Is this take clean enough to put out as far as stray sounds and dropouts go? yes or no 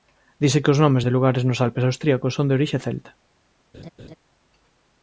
no